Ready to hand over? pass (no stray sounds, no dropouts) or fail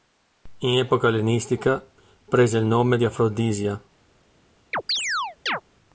fail